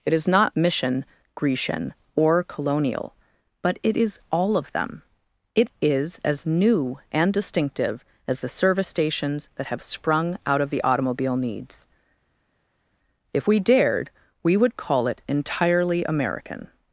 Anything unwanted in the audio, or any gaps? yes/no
no